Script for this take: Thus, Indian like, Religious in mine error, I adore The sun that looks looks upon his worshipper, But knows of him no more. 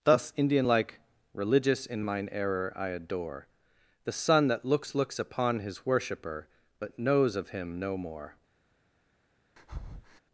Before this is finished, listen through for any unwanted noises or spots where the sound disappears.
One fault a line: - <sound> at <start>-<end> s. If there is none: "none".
- breath at 9.6-10.2 s